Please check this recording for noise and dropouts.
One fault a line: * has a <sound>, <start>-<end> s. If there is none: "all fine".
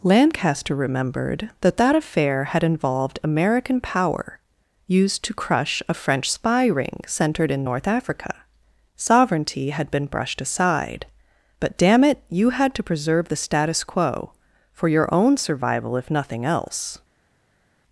all fine